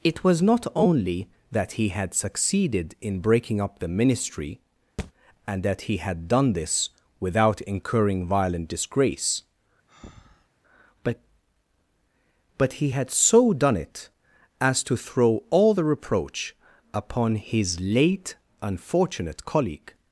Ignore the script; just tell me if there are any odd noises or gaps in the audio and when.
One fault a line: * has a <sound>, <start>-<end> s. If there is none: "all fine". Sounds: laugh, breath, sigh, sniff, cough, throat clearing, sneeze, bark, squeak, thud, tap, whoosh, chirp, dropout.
* has a thud, 5.0-5.1 s
* has a breath, 9.9-10.5 s